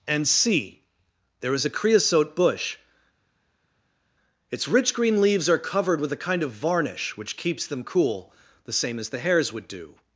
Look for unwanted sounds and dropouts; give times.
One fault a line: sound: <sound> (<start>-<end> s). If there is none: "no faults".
no faults